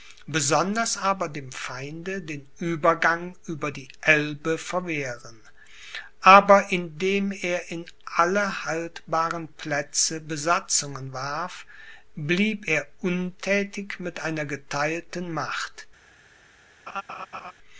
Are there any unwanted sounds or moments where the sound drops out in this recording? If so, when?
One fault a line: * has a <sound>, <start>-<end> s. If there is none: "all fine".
* has a laugh, 16.9-17.5 s